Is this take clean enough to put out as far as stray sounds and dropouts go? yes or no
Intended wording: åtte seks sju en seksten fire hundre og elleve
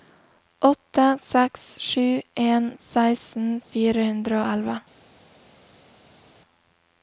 yes